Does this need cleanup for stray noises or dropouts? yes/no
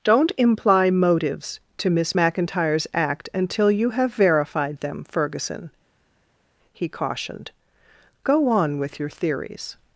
no